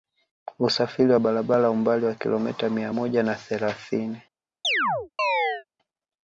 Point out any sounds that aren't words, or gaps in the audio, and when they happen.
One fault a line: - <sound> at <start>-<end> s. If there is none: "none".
- chirp at 4.6-5.6 s